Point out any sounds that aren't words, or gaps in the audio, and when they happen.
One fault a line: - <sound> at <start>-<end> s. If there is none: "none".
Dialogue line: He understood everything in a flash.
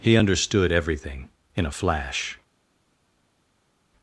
none